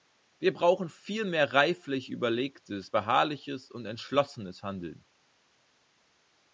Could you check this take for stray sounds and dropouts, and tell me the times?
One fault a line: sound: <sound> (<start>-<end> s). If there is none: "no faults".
no faults